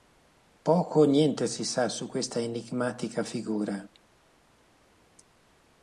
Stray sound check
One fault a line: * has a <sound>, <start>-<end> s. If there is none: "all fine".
all fine